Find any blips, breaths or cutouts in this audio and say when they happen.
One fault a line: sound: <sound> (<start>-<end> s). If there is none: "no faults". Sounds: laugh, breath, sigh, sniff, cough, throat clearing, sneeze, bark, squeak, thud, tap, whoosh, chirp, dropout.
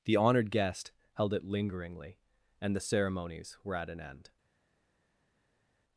no faults